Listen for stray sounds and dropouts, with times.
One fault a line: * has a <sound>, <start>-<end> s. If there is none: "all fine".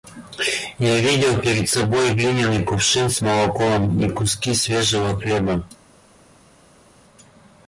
all fine